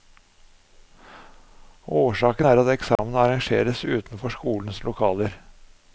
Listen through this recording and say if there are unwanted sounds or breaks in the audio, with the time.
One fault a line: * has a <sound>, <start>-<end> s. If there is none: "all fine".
* has a dropout, 3.0-3.0 s